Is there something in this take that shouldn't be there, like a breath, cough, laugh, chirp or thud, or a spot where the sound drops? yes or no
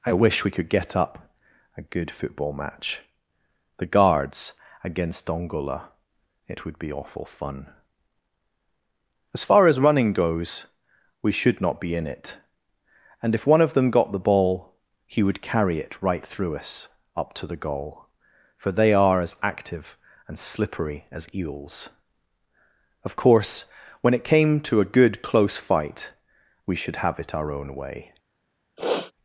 yes